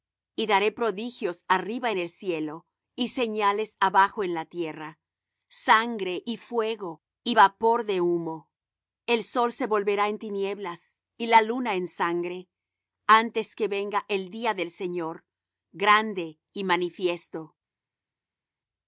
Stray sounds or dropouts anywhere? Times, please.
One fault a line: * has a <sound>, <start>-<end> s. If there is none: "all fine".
all fine